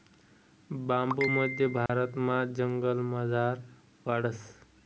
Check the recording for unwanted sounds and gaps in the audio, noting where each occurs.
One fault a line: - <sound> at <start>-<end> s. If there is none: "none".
- dropout at 1.9-1.9 s